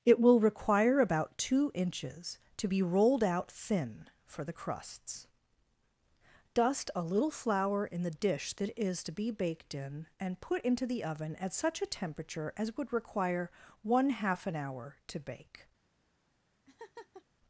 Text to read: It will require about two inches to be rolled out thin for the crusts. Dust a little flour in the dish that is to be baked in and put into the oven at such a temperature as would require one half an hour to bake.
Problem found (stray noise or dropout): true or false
true